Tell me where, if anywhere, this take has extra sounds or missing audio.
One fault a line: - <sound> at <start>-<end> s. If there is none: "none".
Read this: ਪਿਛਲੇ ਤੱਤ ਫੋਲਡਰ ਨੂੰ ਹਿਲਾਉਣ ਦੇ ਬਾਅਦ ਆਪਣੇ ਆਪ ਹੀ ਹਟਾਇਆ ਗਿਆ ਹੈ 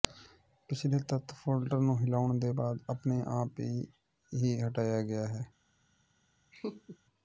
- laugh at 6.5-7.0 s